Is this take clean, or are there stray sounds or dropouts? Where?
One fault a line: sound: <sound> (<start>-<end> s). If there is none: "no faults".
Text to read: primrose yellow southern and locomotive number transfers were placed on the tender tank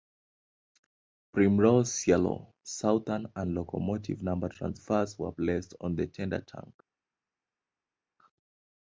no faults